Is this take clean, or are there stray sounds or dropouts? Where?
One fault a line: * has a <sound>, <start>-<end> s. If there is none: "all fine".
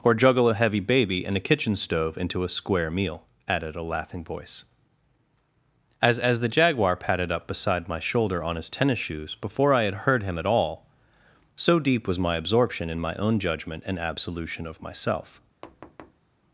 * has a thud, 15.6-16.3 s